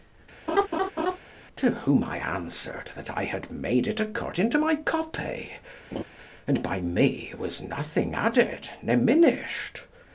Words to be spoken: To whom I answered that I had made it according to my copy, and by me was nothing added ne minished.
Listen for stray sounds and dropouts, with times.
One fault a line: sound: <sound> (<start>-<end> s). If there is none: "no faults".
sound: laugh (0.5-1.2 s)
sound: laugh (5.9-6.0 s)